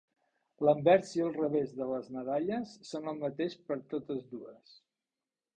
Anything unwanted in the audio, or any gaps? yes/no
no